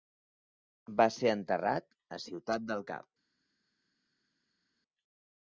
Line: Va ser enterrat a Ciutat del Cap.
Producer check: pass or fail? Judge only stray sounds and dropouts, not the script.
pass